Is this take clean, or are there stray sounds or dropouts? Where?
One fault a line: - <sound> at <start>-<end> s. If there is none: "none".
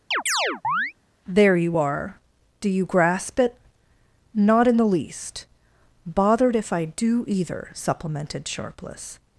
- chirp at 0.1-0.9 s